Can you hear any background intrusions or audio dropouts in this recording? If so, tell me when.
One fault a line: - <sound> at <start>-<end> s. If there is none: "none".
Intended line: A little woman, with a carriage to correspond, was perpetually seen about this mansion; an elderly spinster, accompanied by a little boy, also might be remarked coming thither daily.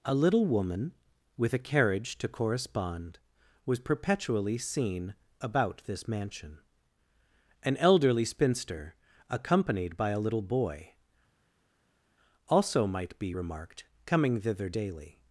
none